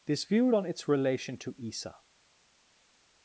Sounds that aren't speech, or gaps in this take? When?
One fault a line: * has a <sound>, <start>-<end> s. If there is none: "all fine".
all fine